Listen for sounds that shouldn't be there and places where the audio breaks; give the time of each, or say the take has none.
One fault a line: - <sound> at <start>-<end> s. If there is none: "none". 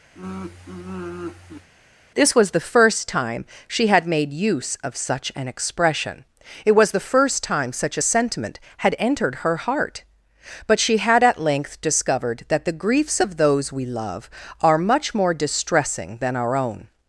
- sigh at 0.2-1.7 s